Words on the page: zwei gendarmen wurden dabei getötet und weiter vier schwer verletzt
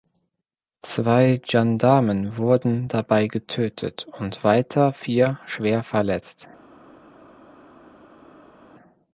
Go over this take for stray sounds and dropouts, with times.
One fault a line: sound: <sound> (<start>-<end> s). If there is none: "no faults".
no faults